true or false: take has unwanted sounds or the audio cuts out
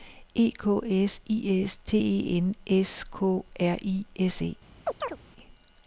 true